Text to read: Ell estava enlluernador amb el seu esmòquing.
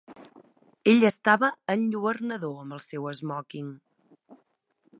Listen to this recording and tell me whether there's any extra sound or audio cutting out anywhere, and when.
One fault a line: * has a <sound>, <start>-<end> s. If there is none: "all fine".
all fine